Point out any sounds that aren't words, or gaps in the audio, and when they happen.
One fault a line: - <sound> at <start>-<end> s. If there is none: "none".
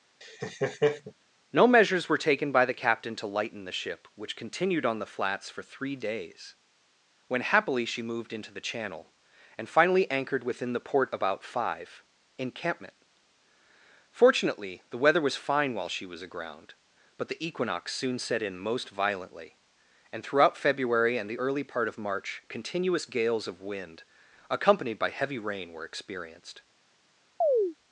- laugh at 0.2-1.1 s
- chirp at 27.4-27.8 s